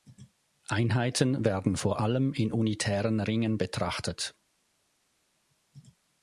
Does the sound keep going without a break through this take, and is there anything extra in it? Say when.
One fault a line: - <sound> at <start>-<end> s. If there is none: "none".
none